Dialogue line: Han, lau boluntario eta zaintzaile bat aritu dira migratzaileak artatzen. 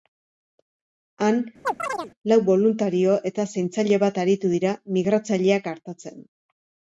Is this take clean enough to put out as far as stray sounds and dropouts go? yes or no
no